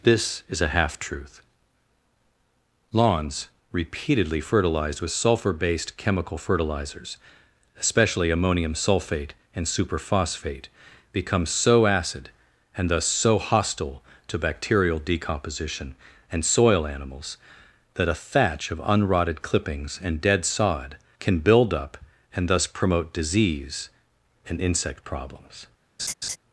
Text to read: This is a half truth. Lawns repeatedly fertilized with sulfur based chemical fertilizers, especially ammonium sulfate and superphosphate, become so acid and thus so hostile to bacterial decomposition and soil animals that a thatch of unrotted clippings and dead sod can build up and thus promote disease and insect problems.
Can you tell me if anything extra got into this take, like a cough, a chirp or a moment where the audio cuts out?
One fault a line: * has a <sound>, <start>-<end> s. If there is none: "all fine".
* has a laugh, 26.0-26.4 s